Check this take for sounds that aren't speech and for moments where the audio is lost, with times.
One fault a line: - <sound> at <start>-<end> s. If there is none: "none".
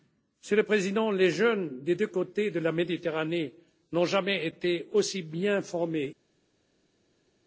none